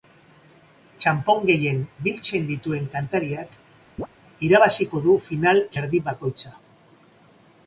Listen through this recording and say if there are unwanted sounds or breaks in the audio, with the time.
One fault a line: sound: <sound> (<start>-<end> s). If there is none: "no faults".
sound: chirp (4.0-4.1 s)